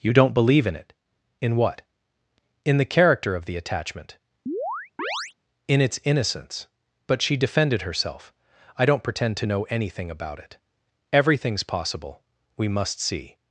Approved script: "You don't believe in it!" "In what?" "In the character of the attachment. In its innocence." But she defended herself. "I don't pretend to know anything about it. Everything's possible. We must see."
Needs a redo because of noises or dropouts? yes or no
yes